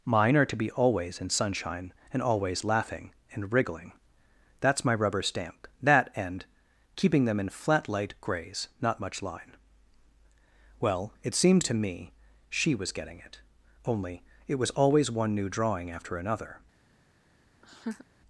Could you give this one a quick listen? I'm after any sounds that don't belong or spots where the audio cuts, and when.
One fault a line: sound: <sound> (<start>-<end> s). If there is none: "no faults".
sound: laugh (17.6-18.1 s)